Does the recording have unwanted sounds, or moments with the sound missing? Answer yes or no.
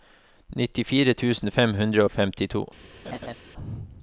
yes